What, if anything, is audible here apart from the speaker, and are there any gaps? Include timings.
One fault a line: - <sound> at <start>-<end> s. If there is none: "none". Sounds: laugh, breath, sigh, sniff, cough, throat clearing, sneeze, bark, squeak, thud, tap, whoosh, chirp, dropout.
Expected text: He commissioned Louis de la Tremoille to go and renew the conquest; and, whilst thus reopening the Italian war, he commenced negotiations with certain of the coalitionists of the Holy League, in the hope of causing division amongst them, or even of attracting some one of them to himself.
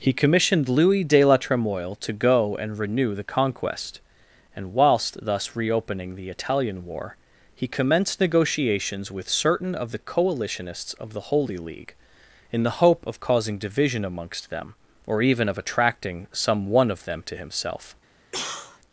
- cough at 18.3-18.8 s